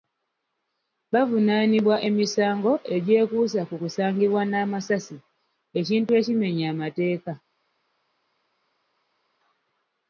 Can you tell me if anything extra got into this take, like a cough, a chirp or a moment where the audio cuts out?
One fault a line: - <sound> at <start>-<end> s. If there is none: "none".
none